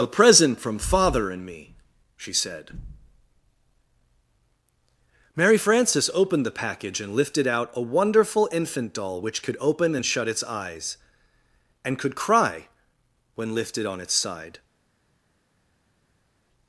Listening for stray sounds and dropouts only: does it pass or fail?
pass